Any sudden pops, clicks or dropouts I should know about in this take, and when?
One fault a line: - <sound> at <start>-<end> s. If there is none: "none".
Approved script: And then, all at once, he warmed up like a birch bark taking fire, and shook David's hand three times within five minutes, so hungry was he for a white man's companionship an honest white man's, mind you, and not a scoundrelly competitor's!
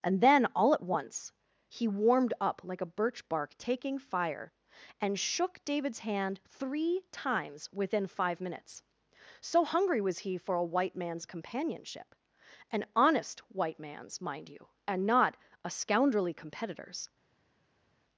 none